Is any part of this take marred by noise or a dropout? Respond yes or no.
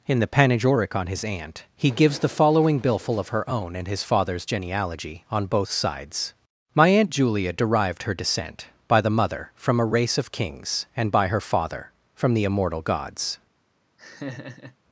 yes